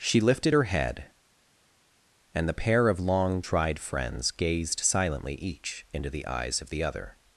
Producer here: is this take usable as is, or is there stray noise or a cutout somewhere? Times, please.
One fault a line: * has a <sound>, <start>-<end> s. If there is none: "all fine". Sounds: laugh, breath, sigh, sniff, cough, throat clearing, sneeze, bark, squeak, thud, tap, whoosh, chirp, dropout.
all fine